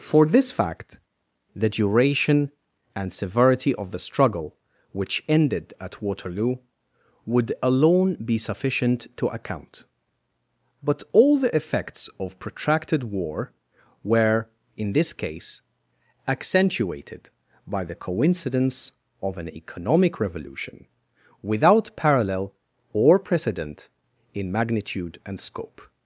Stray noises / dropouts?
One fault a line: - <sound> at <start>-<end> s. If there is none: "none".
none